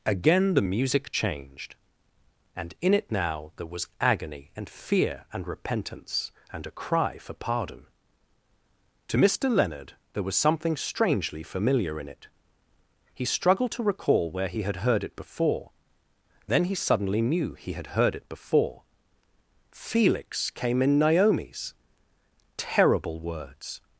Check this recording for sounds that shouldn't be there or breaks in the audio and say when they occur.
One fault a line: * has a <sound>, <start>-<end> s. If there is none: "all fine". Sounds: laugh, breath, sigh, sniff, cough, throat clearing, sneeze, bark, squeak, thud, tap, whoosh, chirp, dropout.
all fine